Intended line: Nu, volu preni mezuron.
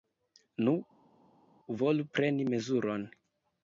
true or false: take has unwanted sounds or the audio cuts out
false